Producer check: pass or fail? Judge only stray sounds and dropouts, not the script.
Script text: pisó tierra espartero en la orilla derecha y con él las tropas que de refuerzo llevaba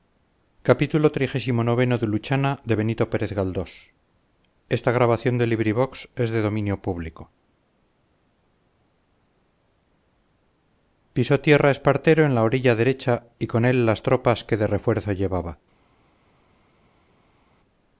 pass